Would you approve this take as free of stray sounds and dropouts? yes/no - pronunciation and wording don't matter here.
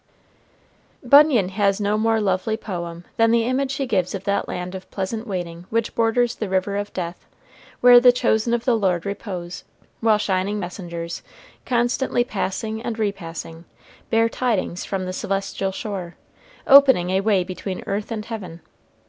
yes